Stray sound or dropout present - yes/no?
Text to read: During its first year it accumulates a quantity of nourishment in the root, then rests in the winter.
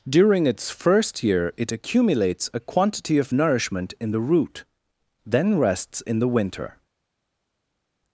no